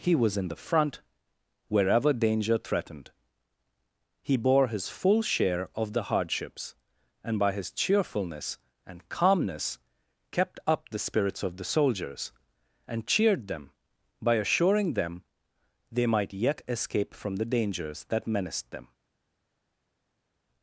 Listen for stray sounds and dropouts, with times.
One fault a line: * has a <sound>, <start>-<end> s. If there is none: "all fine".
all fine